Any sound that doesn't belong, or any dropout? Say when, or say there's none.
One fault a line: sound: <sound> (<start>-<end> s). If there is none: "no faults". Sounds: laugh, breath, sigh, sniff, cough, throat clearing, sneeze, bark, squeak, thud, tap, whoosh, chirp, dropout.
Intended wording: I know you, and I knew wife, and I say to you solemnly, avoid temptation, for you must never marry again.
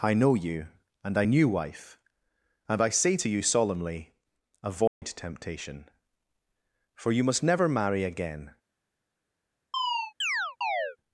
sound: dropout (4.9-5.0 s)
sound: chirp (9.7-11.0 s)